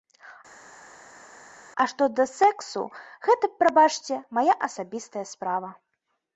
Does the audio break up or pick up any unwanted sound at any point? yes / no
no